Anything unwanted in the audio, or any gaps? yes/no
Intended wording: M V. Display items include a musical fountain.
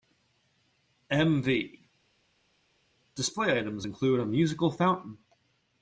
no